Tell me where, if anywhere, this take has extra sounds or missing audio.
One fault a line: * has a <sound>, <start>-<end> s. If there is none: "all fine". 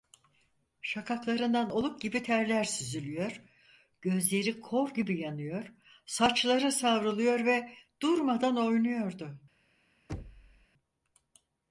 * has a thud, 10.1-10.7 s